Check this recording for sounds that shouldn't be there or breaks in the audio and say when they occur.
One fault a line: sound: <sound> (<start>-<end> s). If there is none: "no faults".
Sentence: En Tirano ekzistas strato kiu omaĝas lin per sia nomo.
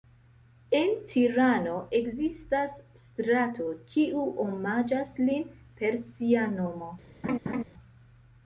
sound: laugh (7.2-7.6 s)